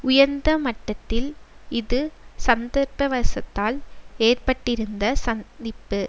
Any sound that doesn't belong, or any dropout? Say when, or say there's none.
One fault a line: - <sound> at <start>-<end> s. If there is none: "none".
none